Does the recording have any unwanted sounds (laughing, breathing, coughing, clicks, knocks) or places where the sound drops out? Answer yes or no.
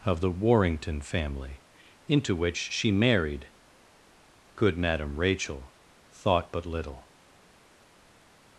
no